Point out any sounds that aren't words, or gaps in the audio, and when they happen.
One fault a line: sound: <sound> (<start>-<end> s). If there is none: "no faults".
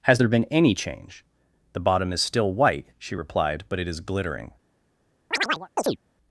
sound: chirp (5.3-6.0 s)